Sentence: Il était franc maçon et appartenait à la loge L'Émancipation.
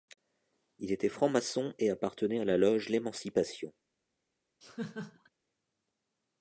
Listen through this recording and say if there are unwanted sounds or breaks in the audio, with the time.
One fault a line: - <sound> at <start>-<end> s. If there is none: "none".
- laugh at 4.6-5.3 s